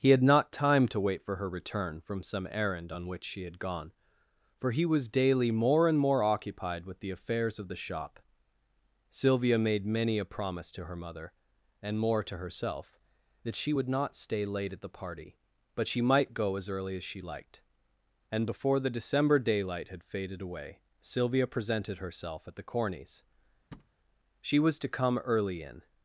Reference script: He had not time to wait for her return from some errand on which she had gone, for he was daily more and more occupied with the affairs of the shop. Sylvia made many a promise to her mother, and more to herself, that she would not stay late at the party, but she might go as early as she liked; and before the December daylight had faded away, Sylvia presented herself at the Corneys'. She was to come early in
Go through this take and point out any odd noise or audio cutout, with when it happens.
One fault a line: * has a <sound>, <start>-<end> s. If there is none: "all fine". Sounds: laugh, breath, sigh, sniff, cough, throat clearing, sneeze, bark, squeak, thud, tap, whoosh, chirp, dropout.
* has a thud, 23.7-23.9 s